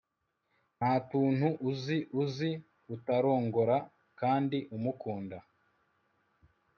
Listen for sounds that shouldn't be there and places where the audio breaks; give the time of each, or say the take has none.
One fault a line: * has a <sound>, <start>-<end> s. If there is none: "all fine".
all fine